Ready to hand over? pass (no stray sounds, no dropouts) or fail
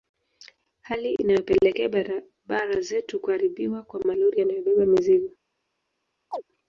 fail